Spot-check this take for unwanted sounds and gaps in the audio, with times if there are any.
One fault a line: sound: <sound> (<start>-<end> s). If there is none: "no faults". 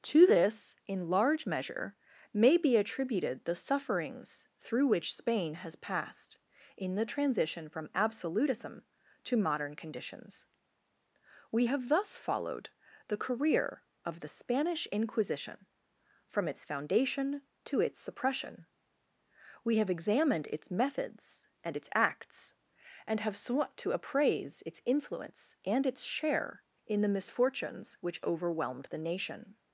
no faults